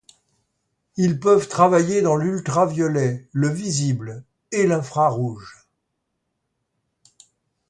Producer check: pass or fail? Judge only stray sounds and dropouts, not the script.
pass